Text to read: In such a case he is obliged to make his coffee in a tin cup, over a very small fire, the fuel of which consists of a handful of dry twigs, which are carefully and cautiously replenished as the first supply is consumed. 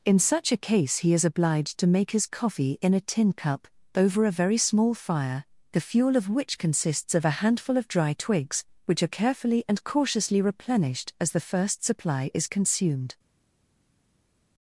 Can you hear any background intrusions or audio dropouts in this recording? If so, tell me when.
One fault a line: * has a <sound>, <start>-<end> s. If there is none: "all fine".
all fine